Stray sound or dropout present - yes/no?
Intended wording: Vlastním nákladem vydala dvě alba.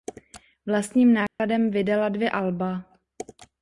yes